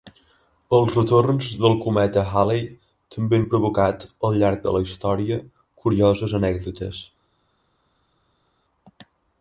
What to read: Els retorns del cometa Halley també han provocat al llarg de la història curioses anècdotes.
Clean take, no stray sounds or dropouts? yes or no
yes